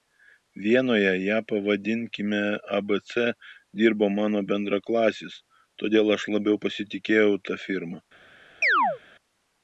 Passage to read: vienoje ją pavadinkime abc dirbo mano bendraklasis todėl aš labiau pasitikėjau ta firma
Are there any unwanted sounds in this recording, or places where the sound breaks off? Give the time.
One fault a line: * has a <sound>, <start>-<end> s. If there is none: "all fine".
* has a chirp, 8.6-9.0 s